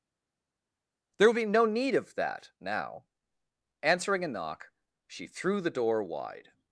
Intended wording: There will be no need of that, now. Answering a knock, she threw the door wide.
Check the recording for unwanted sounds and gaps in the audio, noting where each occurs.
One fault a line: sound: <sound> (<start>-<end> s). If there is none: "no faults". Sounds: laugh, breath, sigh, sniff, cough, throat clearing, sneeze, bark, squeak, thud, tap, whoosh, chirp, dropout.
no faults